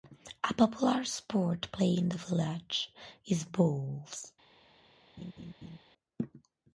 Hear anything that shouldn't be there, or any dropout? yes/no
yes